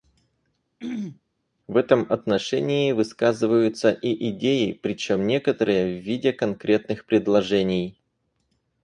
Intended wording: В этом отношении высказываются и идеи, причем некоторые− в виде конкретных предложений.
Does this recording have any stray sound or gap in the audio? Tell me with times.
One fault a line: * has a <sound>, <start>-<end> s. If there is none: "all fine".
* has a throat clearing, 0.8-1.2 s